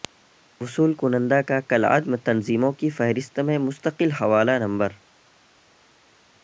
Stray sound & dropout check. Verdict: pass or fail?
pass